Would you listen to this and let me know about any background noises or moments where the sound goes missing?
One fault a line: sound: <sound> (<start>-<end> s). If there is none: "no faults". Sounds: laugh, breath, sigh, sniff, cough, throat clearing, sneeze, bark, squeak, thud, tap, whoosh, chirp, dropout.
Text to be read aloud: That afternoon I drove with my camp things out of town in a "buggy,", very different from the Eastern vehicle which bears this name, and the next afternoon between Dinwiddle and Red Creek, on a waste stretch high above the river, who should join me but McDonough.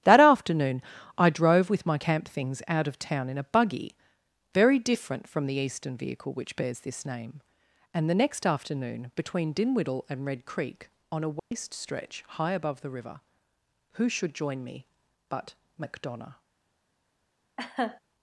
sound: dropout (11.4-11.5 s)
sound: laugh (17.6-18.0 s)